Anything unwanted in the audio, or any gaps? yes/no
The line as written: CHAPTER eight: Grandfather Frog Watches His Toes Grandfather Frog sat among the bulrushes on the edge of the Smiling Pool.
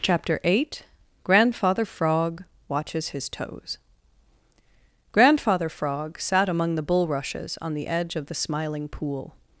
no